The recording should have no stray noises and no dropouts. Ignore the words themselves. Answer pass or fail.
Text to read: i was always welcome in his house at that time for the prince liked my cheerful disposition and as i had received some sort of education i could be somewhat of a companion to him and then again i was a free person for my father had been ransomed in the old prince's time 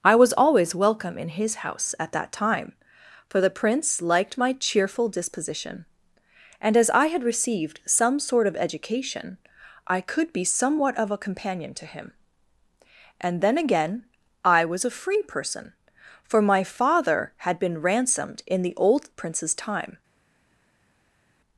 pass